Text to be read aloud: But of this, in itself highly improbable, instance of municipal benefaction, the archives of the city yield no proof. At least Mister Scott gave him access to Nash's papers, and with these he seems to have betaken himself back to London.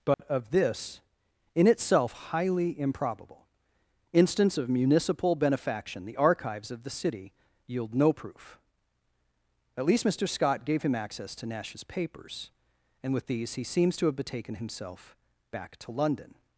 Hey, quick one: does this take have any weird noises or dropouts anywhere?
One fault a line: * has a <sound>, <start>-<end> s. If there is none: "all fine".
* has a dropout, 0.1-0.2 s